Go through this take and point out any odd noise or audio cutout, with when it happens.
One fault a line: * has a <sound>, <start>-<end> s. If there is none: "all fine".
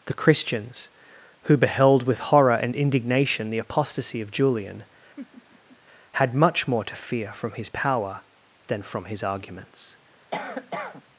* has a laugh, 5.2-5.8 s
* has a cough, 10.3-11.0 s